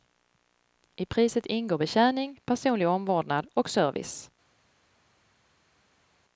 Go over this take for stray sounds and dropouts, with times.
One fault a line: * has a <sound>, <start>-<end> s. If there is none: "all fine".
all fine